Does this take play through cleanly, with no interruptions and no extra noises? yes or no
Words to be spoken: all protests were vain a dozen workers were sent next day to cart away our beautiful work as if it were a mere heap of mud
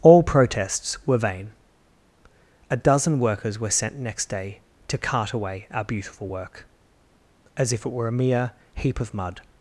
yes